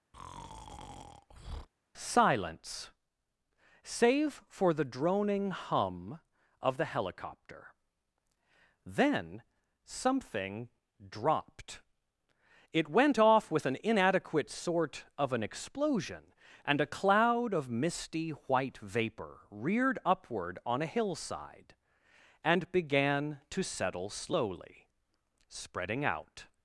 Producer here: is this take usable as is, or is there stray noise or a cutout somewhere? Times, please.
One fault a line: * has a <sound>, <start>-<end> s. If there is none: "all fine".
* has a breath, 0.1-1.7 s